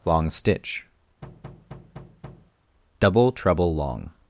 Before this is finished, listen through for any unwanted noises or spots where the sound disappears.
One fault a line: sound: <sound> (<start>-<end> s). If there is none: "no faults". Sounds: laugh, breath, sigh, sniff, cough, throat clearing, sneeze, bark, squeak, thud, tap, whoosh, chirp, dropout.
sound: thud (1.2-2.5 s)